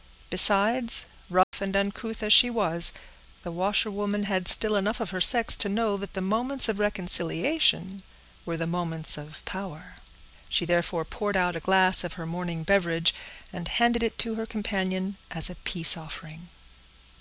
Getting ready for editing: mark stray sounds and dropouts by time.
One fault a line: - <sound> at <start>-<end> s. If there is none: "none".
- dropout at 1.4-1.5 s